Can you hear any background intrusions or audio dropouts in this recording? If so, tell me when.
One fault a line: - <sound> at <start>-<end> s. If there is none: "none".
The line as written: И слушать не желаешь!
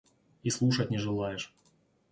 none